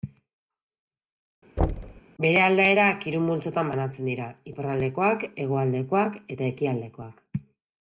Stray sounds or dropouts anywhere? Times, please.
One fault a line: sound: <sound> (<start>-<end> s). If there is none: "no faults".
sound: thud (1.6-2.0 s)